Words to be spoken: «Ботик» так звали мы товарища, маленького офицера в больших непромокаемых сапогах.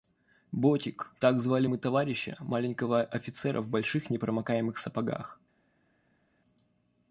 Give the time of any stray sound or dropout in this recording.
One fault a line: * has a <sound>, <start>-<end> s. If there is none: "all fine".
all fine